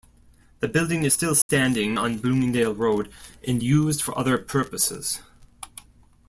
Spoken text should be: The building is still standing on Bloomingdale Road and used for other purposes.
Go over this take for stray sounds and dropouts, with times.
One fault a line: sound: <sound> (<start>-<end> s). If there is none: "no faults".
sound: dropout (1.4-1.5 s)